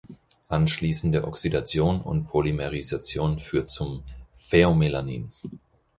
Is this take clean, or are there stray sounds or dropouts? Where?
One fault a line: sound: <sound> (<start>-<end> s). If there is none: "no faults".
no faults